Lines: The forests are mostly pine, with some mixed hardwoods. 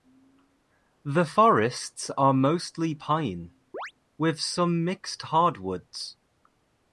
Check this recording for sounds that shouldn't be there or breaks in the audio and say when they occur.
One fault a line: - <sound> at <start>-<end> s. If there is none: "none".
- chirp at 3.7-3.9 s